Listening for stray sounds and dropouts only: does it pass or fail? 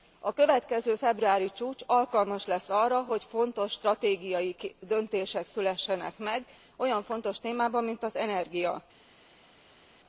pass